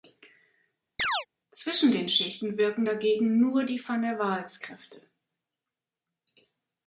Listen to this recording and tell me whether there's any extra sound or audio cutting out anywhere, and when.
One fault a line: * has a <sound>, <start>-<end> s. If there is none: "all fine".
* has a chirp, 1.0-1.3 s